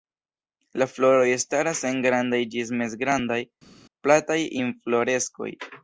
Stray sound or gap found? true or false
false